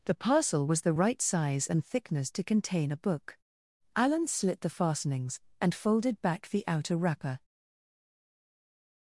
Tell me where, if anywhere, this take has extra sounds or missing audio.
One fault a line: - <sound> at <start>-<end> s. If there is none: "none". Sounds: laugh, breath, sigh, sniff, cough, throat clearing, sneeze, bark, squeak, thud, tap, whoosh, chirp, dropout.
none